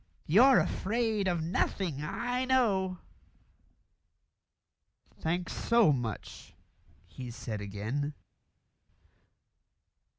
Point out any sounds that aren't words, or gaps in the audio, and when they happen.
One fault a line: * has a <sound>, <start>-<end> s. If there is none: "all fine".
all fine